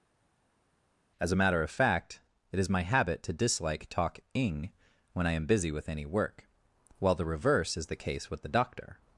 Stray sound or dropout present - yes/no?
no